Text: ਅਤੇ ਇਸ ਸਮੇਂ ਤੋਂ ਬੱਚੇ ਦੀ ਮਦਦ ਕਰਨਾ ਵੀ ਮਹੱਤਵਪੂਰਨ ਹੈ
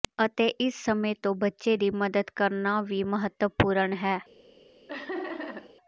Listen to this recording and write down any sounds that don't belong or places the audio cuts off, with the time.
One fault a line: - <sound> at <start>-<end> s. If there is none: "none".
- laugh at 4.9-5.8 s